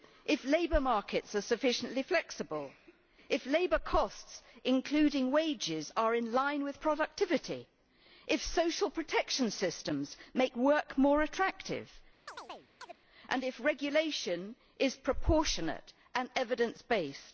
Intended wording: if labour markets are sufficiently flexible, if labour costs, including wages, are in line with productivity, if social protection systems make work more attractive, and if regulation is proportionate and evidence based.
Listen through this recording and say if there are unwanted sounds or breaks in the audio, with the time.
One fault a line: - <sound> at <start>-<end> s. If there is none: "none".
- chirp at 12.3-13.0 s